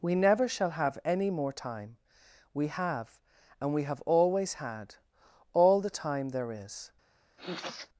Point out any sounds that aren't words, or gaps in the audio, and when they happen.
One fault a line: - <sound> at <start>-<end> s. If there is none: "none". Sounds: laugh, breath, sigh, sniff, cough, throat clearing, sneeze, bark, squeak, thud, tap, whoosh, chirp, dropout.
- sniff at 7.4-7.9 s